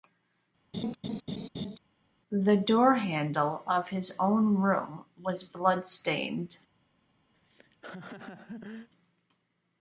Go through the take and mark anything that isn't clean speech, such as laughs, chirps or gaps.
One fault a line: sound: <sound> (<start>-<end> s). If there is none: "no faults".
sound: laugh (0.7-1.8 s)
sound: laugh (7.3-8.9 s)